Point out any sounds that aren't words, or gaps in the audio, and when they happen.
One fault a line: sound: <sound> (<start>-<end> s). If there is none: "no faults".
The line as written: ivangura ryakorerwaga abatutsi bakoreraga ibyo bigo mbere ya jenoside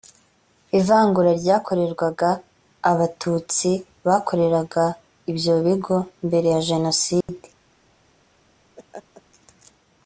sound: dropout (7.2-7.3 s)
sound: laugh (8.8-9.2 s)